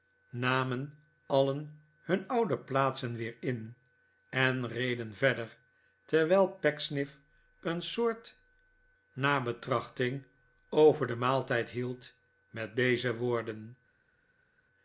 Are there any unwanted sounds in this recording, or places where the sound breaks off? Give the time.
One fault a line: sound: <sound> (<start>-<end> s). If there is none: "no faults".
no faults